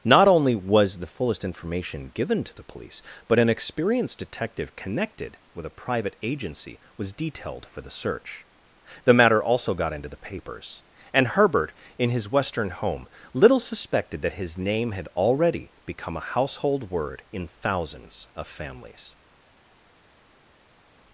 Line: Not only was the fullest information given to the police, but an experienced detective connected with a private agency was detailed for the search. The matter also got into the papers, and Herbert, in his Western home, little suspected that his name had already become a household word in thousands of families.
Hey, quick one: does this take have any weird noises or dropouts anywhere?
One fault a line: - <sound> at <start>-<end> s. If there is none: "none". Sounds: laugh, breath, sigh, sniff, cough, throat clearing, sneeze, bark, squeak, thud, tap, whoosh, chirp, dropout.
none